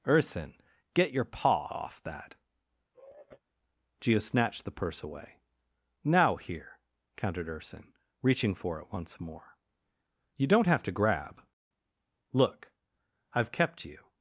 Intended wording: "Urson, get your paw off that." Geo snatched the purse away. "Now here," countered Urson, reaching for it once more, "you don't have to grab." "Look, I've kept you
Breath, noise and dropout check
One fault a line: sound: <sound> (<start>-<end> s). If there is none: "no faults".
sound: sigh (2.9-3.4 s)